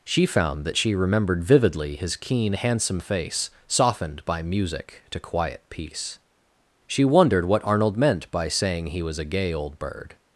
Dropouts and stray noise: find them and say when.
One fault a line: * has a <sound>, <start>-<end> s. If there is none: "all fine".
all fine